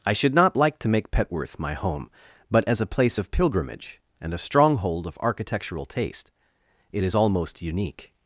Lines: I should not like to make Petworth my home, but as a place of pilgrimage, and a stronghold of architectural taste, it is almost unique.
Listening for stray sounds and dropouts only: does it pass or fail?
pass